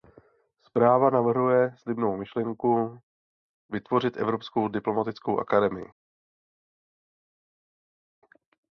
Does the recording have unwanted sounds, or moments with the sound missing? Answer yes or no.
no